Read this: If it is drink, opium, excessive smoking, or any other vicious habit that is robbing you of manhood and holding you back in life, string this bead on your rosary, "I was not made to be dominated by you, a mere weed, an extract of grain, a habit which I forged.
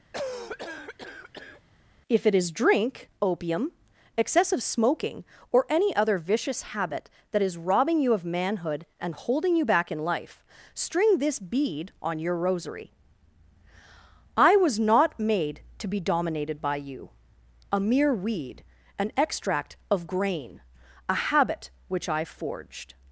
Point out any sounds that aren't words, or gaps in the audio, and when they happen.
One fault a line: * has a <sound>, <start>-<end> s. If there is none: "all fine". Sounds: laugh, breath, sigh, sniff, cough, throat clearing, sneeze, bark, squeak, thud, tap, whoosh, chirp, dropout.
* has a cough, 0.1-1.6 s